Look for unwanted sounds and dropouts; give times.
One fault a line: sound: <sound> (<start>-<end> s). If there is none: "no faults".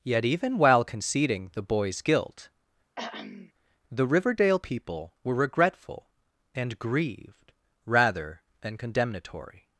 sound: throat clearing (3.0-3.5 s)